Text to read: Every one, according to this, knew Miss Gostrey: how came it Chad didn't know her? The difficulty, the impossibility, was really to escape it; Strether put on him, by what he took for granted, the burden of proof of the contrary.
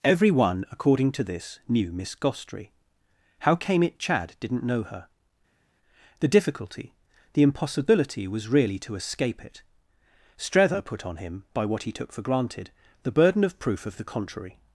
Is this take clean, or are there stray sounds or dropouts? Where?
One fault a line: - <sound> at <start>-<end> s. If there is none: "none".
none